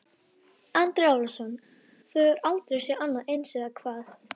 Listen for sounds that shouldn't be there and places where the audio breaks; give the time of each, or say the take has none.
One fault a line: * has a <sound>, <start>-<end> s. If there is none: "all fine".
all fine